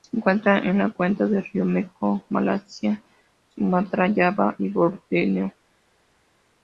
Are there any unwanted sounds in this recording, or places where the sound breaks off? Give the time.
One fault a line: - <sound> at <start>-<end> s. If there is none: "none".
none